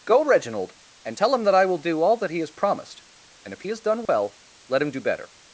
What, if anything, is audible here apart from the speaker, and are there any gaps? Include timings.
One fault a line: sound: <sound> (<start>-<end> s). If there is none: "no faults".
sound: dropout (4.1-4.1 s)